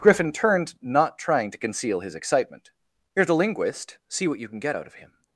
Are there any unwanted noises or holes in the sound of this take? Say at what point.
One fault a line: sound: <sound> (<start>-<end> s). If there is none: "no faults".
no faults